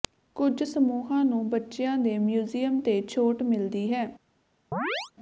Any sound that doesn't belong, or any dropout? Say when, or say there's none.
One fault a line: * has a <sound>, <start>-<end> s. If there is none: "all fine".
* has a chirp, 4.7-5.1 s